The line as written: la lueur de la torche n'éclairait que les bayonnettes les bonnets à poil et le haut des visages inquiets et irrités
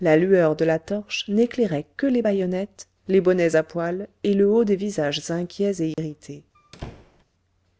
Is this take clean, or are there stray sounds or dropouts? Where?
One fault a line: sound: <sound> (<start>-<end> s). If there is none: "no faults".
sound: dropout (5.9-6.0 s)
sound: squeak (6.5-7.2 s)